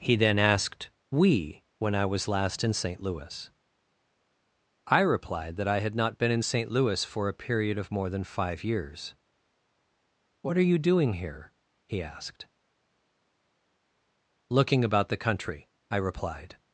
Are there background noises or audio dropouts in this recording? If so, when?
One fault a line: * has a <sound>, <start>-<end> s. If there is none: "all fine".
all fine